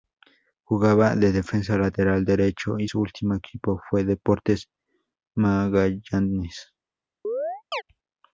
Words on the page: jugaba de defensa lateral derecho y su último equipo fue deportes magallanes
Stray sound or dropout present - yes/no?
yes